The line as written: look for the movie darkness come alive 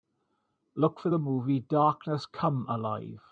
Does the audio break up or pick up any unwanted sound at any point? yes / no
no